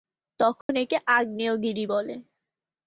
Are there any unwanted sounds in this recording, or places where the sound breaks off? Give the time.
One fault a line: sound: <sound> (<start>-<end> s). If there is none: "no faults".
sound: dropout (0.6-0.7 s)